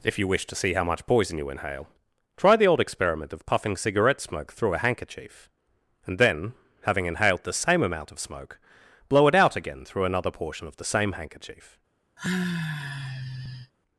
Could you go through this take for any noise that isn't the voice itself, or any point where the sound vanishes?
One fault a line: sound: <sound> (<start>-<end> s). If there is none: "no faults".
sound: sigh (12.2-13.7 s)